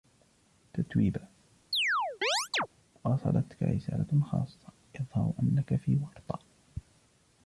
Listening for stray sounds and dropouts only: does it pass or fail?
fail